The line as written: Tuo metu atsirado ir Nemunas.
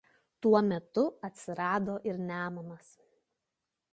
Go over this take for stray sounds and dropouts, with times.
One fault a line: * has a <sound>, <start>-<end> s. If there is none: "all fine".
all fine